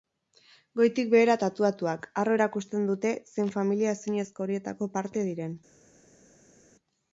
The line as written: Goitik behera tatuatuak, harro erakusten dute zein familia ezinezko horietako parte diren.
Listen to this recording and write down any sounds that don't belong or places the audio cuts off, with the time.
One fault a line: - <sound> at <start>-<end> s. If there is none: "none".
none